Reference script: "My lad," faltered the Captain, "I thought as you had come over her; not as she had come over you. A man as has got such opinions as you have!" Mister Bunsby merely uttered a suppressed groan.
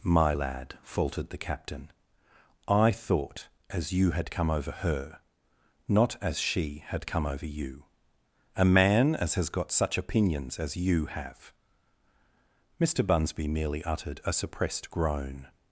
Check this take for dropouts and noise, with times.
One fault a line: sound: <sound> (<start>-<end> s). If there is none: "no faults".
no faults